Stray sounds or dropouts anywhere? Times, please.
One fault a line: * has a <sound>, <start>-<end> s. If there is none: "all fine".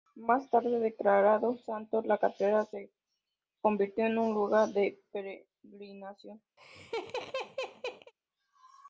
* has a laugh, 6.6-8.1 s